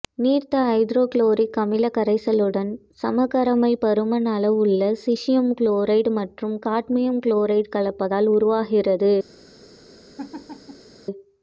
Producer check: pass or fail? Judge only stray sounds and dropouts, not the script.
fail